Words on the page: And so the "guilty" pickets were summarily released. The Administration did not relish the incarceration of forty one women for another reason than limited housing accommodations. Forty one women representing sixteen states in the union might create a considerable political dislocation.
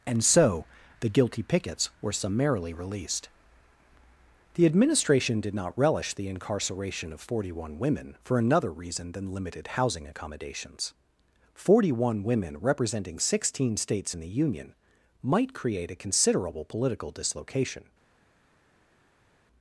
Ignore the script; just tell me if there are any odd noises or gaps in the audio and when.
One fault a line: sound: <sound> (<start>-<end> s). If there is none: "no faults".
no faults